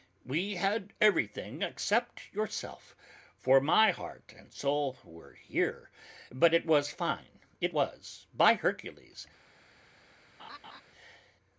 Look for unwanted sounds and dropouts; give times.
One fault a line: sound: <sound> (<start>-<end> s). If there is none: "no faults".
sound: laugh (10.4-10.8 s)